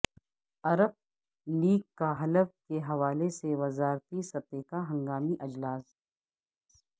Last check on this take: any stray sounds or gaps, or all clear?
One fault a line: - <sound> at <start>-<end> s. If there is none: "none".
none